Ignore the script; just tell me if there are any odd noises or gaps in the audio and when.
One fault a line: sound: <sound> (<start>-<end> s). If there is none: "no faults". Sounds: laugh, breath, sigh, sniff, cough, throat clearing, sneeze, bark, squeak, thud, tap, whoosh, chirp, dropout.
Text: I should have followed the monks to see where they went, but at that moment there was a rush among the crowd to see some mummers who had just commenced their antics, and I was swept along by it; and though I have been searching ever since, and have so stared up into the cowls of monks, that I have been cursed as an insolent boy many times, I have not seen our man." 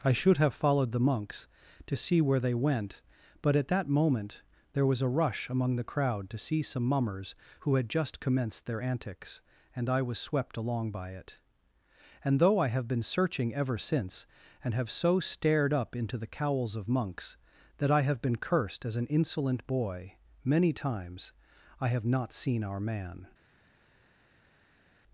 no faults